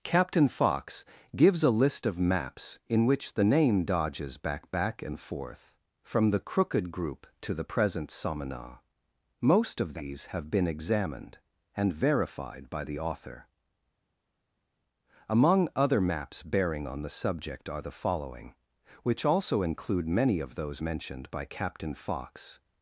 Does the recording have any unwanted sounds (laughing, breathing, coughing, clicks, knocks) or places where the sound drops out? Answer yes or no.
no